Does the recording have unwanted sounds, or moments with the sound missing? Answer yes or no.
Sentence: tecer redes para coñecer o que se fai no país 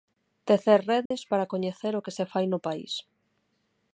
yes